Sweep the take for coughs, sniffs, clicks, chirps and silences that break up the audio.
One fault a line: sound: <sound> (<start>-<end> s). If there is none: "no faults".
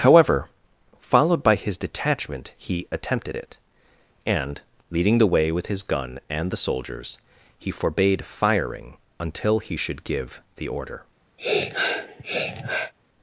sound: sniff (11.4-12.9 s)